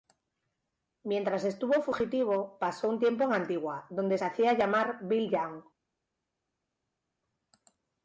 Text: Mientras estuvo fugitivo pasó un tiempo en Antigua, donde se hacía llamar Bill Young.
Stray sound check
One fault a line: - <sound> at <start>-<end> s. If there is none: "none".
none